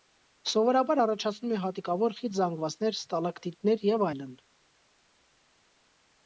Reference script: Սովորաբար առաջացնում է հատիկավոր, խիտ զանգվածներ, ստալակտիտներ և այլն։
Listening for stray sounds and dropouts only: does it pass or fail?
pass